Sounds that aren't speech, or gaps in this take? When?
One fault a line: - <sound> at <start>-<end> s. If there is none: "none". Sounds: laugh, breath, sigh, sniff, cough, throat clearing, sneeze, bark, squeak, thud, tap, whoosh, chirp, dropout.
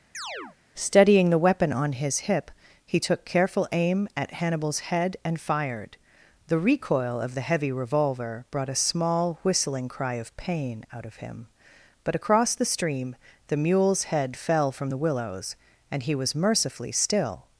- chirp at 0.1-0.6 s